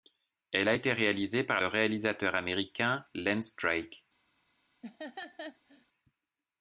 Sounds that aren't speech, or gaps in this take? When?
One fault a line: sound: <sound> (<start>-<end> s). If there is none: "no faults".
sound: laugh (4.8-5.9 s)